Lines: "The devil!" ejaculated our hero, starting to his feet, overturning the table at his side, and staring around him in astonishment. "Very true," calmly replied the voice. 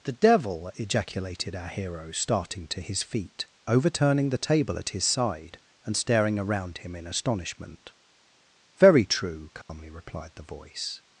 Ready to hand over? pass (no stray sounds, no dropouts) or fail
fail